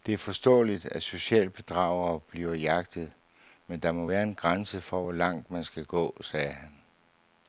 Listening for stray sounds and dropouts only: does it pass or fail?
pass